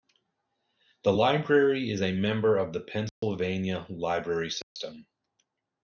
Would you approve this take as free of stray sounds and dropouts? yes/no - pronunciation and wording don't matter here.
no